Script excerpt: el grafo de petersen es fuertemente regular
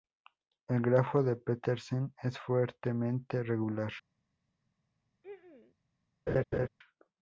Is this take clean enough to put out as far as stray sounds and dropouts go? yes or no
no